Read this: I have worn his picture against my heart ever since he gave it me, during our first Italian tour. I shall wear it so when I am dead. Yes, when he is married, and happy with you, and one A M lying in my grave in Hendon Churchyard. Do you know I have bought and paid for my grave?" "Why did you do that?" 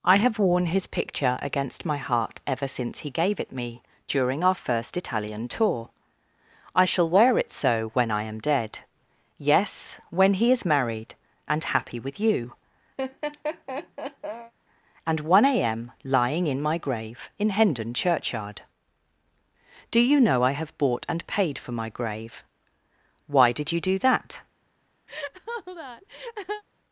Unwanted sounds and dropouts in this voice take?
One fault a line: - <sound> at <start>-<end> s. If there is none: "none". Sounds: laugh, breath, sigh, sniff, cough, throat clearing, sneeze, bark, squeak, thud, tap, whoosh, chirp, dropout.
- laugh at 13.0-14.5 s
- laugh at 25.1-26.6 s